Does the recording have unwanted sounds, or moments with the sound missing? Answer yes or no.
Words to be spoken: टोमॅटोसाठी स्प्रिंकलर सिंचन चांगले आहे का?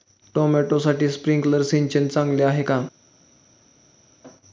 no